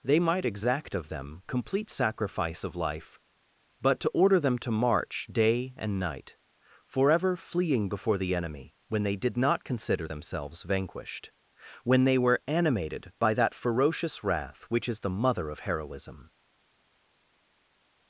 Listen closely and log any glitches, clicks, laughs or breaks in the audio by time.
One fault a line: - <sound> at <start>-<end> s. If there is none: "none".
none